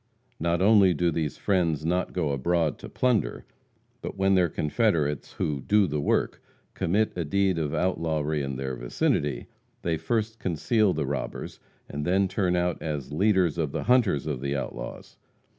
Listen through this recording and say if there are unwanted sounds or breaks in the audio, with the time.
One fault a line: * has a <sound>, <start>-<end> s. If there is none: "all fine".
all fine